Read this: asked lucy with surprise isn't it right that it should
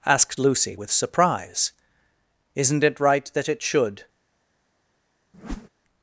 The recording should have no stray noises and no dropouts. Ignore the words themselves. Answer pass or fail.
fail